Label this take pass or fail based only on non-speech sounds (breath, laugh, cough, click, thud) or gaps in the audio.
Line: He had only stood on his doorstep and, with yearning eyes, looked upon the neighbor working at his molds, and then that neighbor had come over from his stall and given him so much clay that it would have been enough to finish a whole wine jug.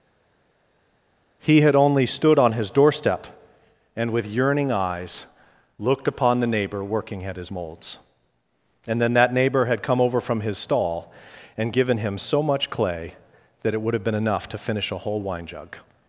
pass